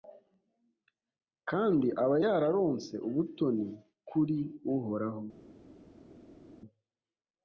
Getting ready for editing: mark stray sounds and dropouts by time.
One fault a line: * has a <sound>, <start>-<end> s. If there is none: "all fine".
all fine